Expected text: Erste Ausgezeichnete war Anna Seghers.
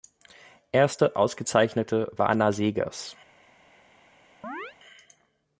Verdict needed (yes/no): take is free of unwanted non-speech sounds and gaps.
no